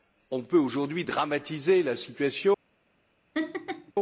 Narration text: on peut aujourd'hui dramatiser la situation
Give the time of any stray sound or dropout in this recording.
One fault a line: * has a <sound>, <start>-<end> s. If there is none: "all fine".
* has a laugh, 3.3-3.9 s